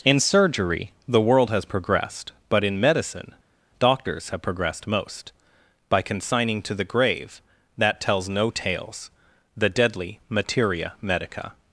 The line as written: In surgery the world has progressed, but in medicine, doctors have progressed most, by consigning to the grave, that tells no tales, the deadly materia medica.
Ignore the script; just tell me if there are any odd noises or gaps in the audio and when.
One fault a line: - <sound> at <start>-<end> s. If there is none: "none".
none